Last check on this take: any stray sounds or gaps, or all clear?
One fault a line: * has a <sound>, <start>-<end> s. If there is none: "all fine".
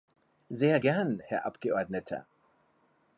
all fine